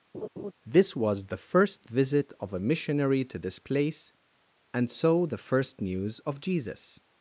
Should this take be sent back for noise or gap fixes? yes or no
yes